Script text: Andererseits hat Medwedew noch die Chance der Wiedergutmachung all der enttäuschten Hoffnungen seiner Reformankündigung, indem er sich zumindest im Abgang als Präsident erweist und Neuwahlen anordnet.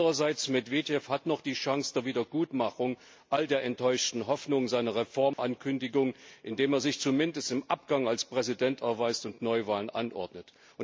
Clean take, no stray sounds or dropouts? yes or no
no